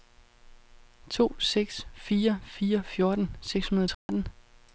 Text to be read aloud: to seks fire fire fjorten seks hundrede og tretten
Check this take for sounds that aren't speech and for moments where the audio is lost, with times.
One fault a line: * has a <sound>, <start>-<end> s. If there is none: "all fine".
* has a dropout, 3.9-4.1 s